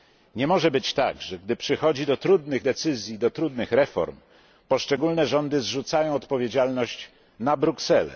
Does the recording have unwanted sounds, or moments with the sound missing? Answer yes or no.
no